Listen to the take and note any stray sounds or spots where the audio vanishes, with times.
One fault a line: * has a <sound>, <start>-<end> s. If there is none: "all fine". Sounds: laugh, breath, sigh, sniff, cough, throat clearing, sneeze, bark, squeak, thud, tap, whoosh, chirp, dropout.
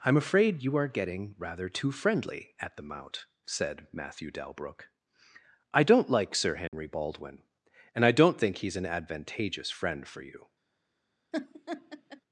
* has a dropout, 6.7-6.7 s
* has a laugh, 11.3-12.2 s